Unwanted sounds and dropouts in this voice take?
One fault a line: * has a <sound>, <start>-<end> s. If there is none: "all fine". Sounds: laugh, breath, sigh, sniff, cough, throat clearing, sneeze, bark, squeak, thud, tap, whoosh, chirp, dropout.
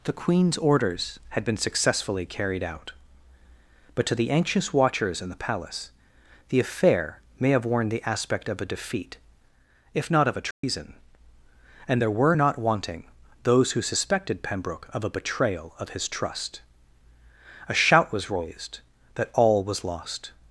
* has a dropout, 10.5-10.6 s